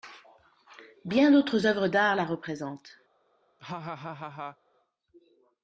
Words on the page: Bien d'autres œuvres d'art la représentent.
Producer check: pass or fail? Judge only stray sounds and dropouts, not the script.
fail